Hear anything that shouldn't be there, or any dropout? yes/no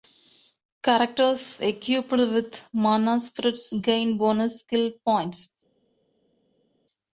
no